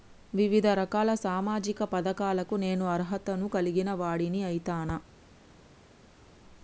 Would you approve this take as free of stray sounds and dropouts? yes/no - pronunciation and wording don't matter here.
yes